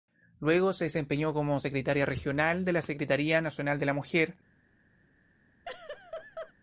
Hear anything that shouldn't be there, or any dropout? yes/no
yes